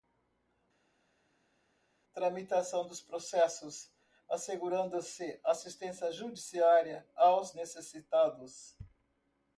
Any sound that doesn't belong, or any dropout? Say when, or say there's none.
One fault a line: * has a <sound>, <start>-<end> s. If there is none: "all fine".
all fine